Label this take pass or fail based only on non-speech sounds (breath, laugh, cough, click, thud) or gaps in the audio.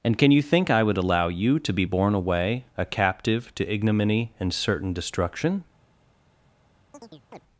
fail